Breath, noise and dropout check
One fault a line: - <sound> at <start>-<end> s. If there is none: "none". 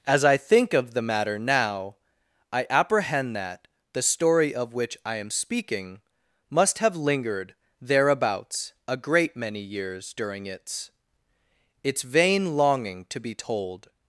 none